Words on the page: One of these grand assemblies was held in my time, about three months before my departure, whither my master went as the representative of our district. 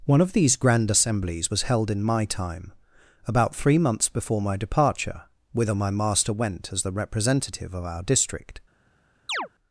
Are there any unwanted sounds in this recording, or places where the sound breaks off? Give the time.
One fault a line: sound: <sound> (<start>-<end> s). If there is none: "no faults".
sound: chirp (9.3-9.5 s)